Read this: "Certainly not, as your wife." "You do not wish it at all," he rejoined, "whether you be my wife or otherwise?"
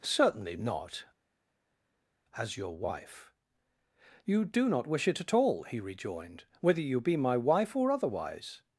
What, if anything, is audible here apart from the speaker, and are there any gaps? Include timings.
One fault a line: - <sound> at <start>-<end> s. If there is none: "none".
none